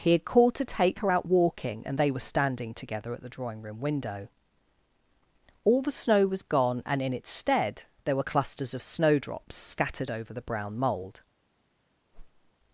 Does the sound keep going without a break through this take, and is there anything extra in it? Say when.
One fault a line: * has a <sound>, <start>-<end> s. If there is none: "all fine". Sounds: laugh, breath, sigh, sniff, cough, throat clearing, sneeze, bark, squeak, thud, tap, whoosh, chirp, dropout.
* has a whoosh, 12.1-12.5 s